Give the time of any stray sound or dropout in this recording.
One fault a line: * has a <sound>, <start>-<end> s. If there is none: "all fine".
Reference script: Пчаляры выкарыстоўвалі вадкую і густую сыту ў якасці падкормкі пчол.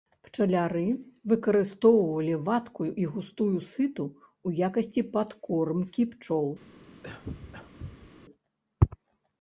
* has a cough, 7.0-8.1 s